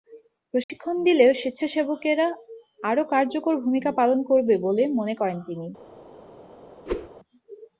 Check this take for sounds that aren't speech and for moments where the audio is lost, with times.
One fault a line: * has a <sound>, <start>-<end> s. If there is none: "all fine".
* has a dropout, 0.6-0.7 s
* has a whoosh, 6.9-7.1 s